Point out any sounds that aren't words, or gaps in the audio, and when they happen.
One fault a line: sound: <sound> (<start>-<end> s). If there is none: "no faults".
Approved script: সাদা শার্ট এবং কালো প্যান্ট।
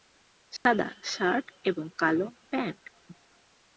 sound: dropout (0.6-0.7 s)